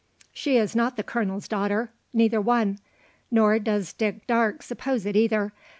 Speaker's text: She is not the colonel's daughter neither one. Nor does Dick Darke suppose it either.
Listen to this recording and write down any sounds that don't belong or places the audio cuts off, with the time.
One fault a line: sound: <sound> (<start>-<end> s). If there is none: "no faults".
no faults